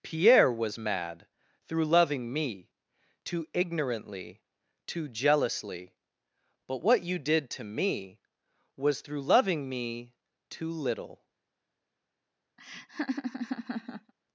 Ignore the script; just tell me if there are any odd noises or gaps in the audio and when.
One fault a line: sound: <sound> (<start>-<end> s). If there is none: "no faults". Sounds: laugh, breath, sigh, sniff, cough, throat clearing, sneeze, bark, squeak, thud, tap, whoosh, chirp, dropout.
sound: laugh (12.6-14.1 s)